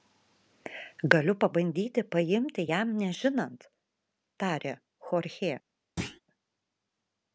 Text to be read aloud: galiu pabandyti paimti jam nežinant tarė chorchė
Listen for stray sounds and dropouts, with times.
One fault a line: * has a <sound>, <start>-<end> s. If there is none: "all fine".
* has a thud, 6.0-6.2 s